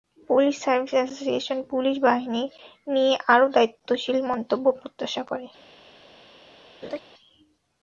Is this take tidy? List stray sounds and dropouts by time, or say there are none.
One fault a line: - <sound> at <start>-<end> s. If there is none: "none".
- laugh at 6.8-7.0 s